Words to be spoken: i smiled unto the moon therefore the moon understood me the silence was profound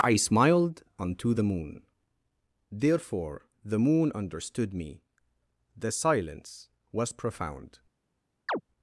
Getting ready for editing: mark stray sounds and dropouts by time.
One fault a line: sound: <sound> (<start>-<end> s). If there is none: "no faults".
sound: chirp (8.5-8.6 s)